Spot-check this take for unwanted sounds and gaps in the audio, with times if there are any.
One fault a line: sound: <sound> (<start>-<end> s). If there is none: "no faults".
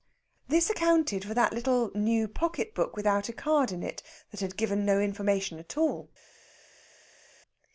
no faults